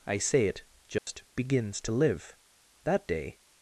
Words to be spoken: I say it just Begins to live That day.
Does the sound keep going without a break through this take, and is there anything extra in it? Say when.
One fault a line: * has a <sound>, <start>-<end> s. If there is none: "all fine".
* has a dropout, 1.0-1.1 s